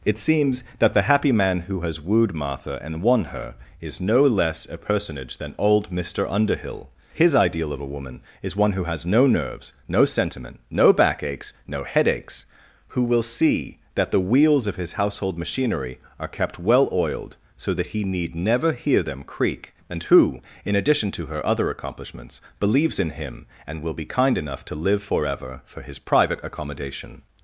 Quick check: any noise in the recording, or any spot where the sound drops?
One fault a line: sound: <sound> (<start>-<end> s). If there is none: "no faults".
no faults